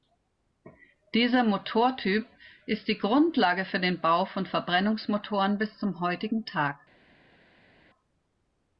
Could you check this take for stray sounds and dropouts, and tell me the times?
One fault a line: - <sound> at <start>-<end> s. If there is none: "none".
none